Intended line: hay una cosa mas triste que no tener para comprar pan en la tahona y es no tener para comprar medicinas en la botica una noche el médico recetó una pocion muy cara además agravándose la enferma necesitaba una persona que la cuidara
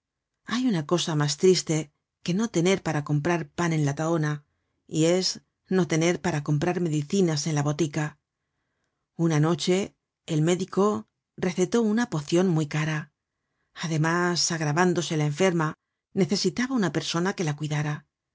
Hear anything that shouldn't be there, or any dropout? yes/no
no